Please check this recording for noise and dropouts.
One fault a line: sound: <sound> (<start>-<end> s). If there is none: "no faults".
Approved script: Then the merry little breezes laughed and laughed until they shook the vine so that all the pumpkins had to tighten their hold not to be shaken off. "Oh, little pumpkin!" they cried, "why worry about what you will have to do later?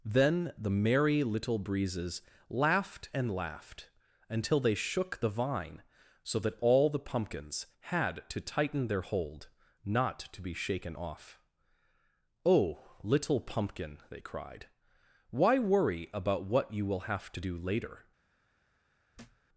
sound: thud (19.1-19.5 s)